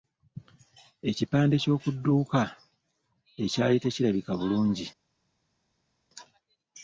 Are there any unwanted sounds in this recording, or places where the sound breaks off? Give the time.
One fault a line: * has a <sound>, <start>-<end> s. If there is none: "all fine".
all fine